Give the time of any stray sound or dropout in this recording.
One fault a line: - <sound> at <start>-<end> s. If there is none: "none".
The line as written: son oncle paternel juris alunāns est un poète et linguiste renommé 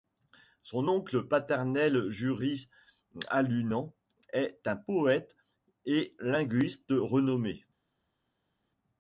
none